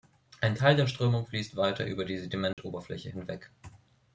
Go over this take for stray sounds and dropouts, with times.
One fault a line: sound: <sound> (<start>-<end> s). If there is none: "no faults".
sound: dropout (2.5-2.6 s)